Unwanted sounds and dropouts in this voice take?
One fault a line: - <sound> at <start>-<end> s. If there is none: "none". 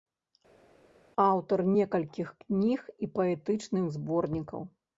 none